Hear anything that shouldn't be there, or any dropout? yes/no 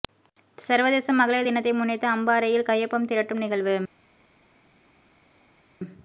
no